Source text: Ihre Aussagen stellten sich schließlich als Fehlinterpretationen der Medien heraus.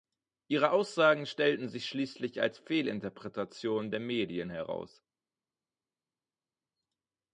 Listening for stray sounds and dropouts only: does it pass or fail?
pass